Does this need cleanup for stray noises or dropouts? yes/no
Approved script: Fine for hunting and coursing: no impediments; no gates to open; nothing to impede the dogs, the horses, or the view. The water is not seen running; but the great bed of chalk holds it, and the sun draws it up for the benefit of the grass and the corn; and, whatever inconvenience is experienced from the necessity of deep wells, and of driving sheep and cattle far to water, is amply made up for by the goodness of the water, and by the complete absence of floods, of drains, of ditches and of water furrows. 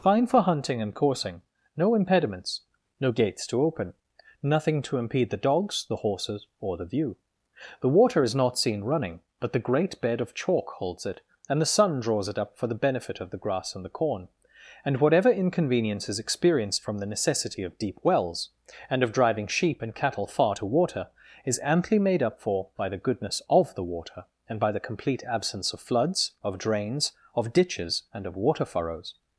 no